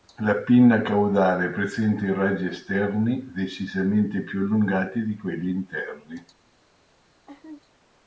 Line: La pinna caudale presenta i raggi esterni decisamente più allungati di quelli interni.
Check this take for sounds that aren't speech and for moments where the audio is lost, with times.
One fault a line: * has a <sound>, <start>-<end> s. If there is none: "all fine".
* has a laugh, 7.3-7.6 s